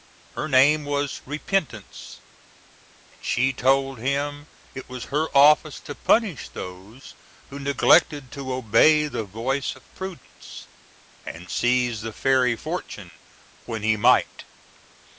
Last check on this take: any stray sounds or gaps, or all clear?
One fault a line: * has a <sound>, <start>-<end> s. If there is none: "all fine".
all fine